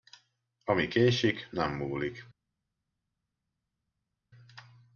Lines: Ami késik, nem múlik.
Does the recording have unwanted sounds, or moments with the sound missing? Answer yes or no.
no